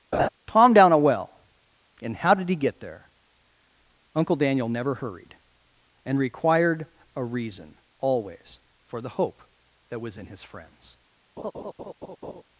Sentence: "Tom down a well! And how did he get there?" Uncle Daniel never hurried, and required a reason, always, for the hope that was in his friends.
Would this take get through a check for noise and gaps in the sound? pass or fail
fail